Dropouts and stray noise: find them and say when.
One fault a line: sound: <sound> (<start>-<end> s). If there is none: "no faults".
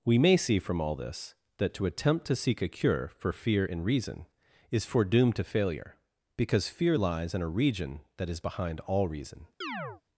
sound: chirp (9.6-10.0 s)